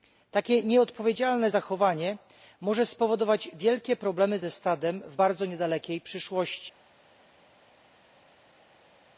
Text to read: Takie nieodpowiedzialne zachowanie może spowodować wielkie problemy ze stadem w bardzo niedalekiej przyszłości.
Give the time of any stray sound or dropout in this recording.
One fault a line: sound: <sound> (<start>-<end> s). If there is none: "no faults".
no faults